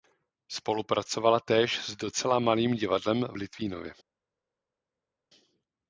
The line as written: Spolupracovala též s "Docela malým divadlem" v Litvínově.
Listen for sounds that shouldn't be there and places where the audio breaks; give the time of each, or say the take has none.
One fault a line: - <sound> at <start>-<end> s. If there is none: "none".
none